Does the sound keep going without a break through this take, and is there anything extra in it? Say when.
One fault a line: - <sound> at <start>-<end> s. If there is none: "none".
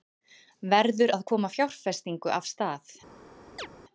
- chirp at 3.6-3.7 s